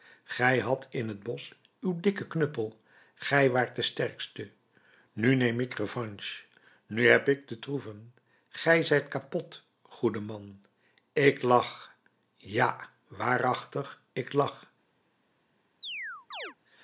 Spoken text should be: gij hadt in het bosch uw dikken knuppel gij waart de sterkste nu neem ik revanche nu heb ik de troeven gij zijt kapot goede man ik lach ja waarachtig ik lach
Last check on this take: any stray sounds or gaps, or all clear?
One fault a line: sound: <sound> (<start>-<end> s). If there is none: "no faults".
sound: chirp (15.8-16.6 s)